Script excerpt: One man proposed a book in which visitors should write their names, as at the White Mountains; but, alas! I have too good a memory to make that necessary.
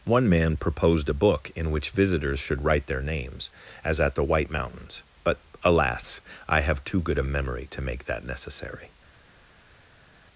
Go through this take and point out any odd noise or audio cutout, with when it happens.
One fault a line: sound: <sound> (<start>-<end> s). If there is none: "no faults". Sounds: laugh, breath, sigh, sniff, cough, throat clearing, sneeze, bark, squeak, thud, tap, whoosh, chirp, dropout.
no faults